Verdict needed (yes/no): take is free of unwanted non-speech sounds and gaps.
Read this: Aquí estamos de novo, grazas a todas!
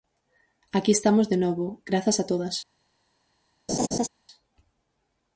no